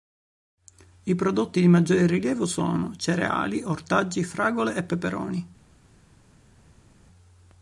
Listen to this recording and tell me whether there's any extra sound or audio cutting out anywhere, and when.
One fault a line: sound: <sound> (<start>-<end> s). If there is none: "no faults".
no faults